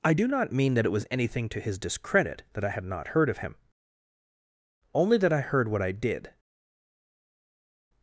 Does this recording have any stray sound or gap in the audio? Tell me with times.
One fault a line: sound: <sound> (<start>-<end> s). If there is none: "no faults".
no faults